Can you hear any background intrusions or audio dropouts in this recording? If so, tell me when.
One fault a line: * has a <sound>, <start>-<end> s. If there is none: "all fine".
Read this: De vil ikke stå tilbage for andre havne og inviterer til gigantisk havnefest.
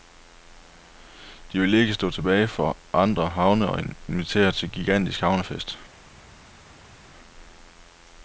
all fine